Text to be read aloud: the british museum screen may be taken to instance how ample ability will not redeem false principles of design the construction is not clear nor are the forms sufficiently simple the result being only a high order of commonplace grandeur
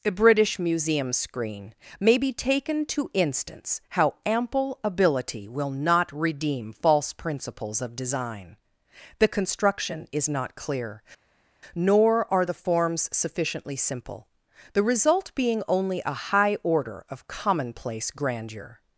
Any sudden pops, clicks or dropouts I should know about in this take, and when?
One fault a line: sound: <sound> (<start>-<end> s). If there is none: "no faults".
no faults